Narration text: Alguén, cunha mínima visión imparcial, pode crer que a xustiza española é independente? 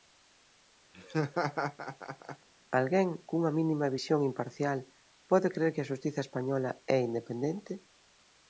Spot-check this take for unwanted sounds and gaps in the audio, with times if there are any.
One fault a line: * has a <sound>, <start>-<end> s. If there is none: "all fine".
* has a laugh, 0.9-2.5 s